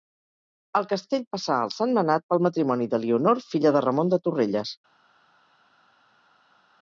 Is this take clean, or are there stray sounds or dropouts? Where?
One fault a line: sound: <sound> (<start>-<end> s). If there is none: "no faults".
no faults